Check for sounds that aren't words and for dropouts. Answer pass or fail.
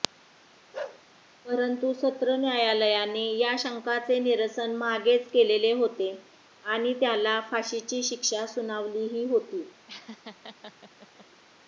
fail